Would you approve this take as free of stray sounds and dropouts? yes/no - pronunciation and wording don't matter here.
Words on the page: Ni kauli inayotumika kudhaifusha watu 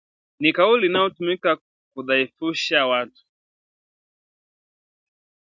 yes